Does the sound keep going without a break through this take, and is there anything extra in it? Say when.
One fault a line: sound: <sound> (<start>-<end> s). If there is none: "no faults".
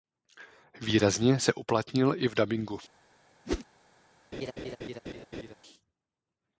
sound: whoosh (3.4-3.6 s)
sound: laugh (4.3-5.5 s)